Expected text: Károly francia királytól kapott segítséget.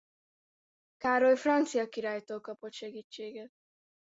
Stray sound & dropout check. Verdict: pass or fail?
pass